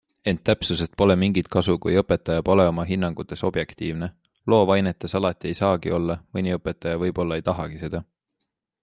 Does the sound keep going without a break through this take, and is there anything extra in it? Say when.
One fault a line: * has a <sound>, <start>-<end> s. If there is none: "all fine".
all fine